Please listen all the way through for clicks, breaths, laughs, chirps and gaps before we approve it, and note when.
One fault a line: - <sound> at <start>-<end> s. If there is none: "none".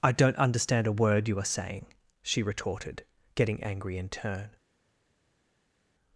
none